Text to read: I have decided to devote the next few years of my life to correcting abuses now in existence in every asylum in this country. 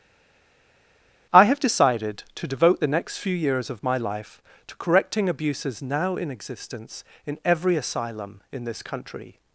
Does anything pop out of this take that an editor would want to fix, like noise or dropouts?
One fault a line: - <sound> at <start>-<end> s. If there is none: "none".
none